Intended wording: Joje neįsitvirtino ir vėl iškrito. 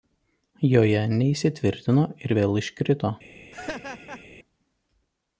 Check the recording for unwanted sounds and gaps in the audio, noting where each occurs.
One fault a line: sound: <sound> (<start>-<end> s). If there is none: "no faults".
sound: laugh (3.5-4.2 s)